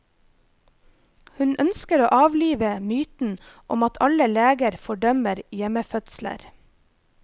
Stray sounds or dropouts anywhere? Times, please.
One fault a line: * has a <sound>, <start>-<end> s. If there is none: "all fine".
all fine